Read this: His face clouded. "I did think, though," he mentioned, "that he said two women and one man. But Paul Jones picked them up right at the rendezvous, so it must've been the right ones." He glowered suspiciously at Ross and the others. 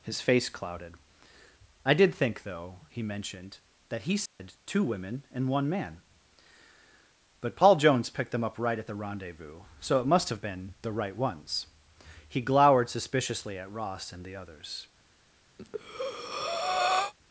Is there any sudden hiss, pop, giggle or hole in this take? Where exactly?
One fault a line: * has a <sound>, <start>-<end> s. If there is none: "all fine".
* has a dropout, 4.3-4.4 s
* has a breath, 15.6-17.1 s